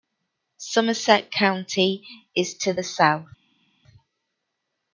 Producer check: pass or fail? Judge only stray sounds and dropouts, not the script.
pass